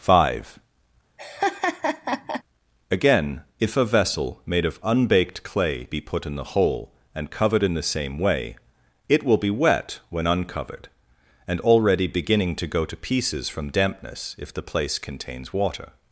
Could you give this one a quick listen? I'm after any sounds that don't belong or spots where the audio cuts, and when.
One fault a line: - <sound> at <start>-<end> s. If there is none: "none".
- laugh at 1.2-2.4 s